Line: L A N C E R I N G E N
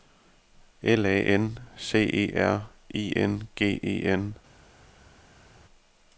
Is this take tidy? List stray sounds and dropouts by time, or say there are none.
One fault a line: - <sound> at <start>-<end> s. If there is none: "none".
none